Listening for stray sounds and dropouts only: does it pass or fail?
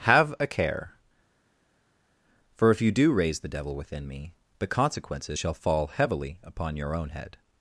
pass